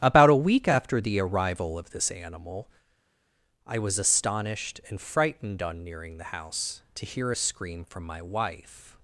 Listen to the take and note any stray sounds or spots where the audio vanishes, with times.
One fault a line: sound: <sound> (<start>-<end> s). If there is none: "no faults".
no faults